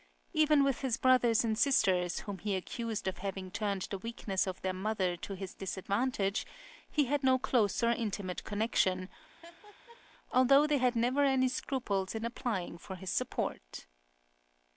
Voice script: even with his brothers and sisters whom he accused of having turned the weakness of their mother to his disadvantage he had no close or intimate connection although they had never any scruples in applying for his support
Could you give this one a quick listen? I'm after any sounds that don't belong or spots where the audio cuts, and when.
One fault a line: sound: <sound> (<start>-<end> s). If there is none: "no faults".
sound: laugh (9.4-10.0 s)